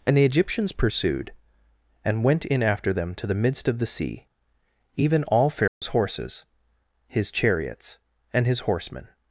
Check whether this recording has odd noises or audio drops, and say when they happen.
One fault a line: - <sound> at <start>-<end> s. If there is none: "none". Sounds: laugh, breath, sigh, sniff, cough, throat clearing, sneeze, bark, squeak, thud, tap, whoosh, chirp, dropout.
- dropout at 5.7-5.8 s